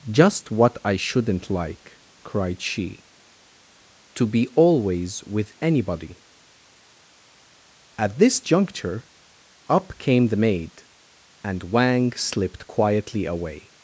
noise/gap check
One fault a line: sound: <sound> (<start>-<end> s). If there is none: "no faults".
no faults